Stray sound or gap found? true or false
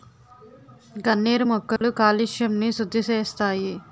true